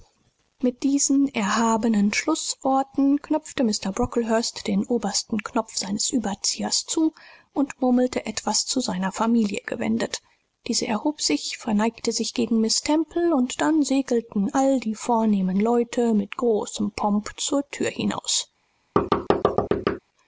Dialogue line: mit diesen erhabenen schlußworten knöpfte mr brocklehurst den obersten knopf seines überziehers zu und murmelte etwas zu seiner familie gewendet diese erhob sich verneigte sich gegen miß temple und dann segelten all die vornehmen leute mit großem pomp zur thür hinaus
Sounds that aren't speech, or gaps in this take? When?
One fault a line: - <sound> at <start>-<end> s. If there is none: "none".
- thud at 19.0-20.0 s